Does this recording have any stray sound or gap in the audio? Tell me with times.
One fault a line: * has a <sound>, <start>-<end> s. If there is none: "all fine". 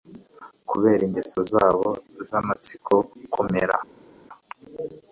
all fine